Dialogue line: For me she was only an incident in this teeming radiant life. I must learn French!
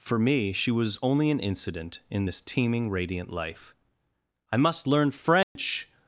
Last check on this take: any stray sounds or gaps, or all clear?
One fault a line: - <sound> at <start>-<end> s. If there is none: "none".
- dropout at 5.4-5.6 s